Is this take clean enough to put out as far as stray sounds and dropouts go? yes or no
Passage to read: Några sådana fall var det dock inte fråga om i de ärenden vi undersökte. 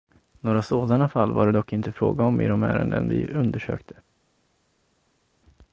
yes